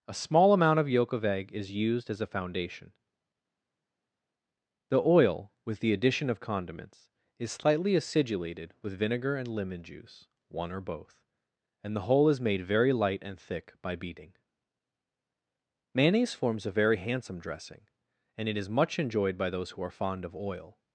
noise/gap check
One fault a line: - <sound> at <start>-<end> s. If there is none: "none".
none